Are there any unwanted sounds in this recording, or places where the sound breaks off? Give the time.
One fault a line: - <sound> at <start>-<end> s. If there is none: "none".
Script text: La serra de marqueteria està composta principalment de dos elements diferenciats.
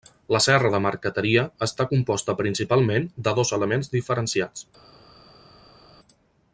none